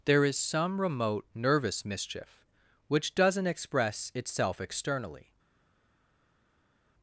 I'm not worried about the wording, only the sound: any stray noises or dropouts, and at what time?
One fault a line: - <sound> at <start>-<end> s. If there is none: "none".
none